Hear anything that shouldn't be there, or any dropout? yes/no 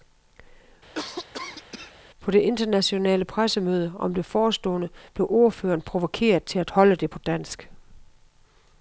yes